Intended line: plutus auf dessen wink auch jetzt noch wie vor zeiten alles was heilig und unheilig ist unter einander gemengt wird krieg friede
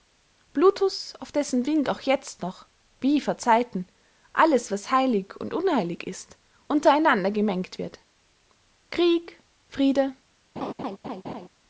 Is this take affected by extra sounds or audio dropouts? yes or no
yes